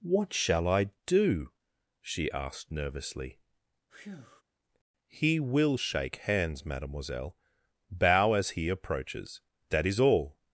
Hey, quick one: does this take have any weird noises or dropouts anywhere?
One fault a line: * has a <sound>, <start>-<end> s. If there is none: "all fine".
* has a breath, 3.9-4.4 s